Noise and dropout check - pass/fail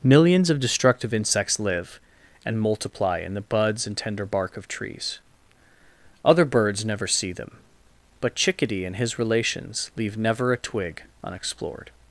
pass